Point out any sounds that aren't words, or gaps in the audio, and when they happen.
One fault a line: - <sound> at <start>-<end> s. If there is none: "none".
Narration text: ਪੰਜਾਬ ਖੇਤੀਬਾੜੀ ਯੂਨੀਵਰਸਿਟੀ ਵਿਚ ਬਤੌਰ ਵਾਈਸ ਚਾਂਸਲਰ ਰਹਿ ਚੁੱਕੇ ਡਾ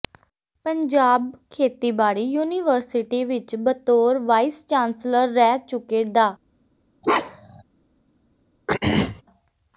- bark at 7.0-7.6 s
- throat clearing at 8.7-9.2 s